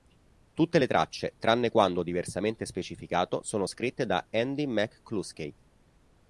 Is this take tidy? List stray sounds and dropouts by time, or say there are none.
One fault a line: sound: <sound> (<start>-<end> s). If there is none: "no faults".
no faults